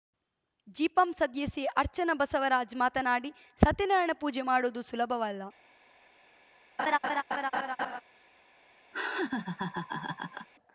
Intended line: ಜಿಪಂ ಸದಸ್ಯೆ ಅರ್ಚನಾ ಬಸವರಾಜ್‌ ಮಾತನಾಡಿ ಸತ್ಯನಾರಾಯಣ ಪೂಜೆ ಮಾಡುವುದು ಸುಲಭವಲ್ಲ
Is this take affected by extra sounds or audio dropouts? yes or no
yes